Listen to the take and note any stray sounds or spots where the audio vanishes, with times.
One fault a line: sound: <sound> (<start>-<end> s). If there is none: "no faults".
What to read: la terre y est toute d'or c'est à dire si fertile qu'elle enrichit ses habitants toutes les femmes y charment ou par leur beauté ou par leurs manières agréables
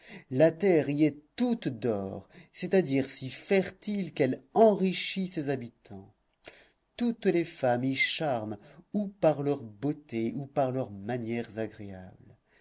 no faults